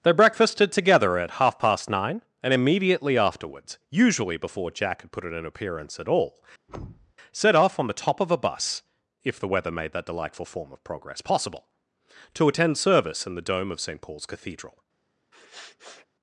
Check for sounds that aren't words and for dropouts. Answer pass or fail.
fail